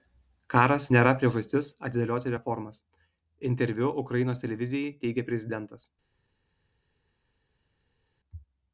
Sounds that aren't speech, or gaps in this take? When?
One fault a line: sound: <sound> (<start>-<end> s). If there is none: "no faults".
no faults